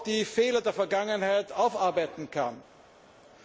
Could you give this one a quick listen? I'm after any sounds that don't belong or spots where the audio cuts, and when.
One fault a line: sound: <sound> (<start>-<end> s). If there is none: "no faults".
no faults